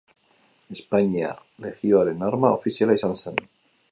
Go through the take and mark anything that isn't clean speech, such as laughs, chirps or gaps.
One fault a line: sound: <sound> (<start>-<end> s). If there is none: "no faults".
no faults